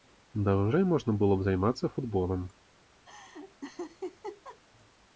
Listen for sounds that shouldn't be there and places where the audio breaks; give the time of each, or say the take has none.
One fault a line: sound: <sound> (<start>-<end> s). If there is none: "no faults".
sound: laugh (3.1-4.6 s)